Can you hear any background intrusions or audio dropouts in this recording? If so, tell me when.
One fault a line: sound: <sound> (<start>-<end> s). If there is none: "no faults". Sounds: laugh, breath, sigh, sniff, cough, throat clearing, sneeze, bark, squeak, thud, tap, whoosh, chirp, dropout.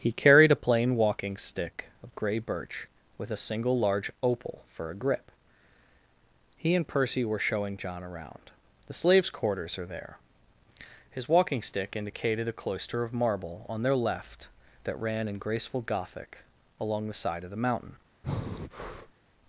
sound: breath (18.2-19.1 s)